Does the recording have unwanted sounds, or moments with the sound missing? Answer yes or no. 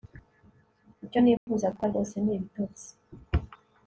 yes